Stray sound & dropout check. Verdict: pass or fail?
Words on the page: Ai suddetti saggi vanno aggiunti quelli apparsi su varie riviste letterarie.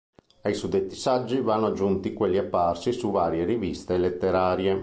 pass